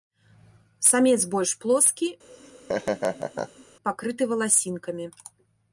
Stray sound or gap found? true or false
true